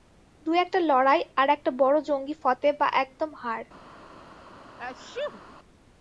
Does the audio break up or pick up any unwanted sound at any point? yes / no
yes